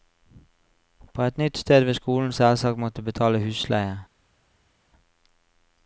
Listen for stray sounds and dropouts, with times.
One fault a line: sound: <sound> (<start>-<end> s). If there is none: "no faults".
no faults